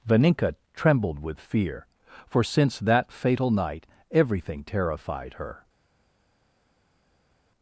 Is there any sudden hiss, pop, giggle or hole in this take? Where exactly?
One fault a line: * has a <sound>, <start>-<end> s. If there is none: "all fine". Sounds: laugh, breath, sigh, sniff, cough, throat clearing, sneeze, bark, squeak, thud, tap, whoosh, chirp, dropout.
all fine